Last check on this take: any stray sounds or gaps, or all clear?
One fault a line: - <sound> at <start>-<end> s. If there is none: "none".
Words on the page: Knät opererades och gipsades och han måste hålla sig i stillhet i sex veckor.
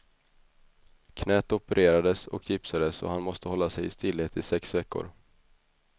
none